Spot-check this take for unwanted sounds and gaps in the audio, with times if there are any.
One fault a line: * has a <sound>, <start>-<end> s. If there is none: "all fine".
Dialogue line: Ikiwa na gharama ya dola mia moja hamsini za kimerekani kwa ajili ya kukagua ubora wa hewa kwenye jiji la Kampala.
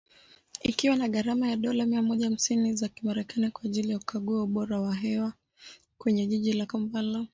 all fine